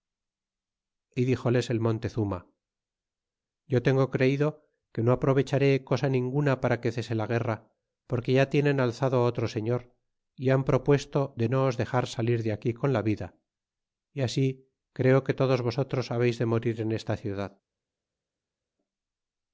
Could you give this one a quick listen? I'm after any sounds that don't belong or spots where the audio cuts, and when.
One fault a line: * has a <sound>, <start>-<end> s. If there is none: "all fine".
all fine